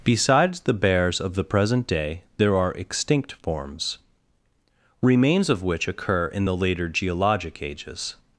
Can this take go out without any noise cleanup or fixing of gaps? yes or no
yes